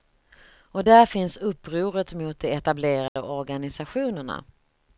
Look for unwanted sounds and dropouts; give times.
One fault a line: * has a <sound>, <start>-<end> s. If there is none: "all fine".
* has a dropout, 3.1-3.2 s